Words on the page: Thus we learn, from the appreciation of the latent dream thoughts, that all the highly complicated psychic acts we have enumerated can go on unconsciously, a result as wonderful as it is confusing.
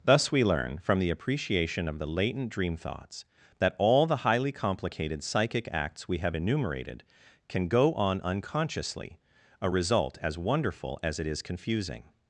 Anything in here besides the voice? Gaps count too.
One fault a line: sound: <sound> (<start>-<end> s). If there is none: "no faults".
no faults